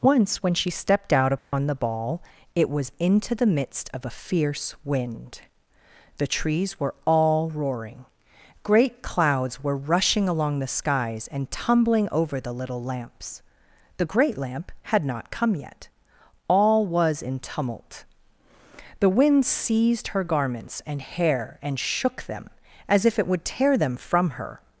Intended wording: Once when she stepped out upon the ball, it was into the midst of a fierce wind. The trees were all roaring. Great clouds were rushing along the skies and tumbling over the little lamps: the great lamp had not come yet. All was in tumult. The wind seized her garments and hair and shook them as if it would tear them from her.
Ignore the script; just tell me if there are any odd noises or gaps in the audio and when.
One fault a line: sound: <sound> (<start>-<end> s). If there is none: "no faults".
sound: dropout (1.4-1.5 s)